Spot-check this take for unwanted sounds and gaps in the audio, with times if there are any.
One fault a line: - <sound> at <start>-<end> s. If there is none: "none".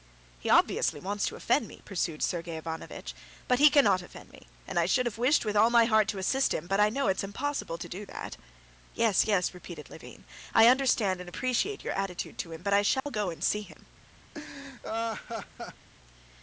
- dropout at 13.0-13.1 s
- laugh at 14.3-15.9 s